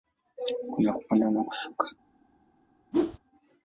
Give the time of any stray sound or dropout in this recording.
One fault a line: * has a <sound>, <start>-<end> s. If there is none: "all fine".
* has a whoosh, 2.9-3.2 s